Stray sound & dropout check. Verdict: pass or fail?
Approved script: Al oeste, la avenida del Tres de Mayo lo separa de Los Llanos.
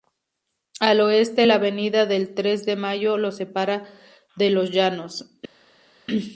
pass